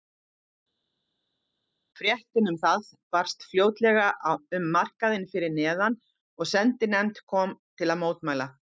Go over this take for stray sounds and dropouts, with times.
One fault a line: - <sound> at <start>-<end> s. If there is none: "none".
none